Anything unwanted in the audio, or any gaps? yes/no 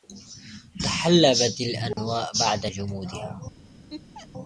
yes